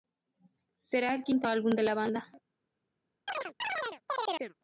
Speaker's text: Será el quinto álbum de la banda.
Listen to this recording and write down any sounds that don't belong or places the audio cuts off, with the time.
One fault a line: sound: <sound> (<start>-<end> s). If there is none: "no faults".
sound: chirp (3.3-4.5 s)